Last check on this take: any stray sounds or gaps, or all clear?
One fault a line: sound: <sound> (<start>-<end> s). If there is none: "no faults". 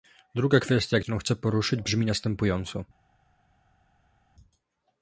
no faults